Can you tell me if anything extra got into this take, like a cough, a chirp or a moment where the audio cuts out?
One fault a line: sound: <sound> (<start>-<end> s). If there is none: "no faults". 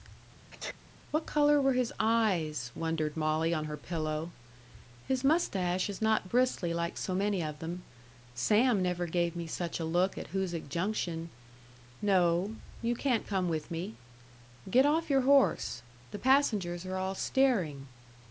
sound: sneeze (0.5-0.8 s)